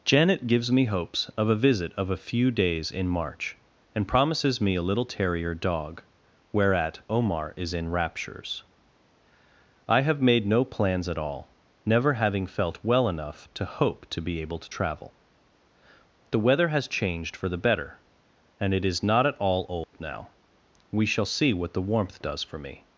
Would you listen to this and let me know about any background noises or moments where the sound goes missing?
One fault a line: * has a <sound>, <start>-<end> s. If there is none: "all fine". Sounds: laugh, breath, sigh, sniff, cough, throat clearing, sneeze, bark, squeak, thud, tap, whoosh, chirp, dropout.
* has a dropout, 19.8-19.9 s